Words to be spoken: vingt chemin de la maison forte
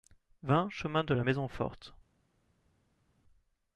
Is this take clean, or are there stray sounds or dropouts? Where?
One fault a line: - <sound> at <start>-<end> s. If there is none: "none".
none